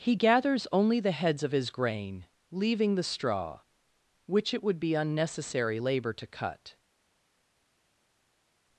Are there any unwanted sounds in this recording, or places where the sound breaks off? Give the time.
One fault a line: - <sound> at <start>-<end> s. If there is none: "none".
none